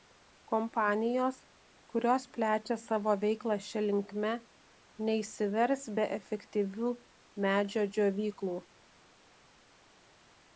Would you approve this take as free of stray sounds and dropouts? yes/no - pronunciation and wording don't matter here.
yes